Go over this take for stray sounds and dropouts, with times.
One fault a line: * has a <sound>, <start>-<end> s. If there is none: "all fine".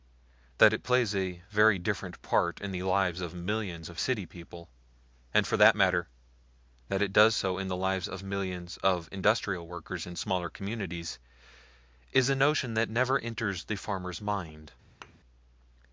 * has a thud, 15.0-15.2 s